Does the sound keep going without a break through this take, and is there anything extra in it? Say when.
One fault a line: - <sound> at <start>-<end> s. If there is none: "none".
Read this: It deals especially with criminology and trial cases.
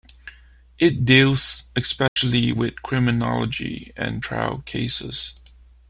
- dropout at 2.1-2.2 s